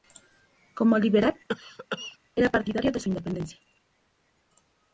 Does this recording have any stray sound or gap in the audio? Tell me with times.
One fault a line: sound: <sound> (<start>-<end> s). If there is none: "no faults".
sound: cough (1.5-2.2 s)